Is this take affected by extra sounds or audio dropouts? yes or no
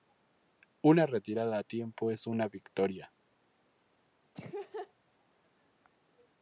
yes